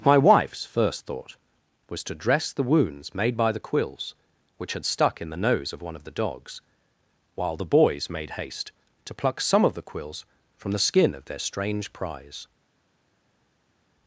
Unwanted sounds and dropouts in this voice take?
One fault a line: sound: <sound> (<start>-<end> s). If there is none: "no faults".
no faults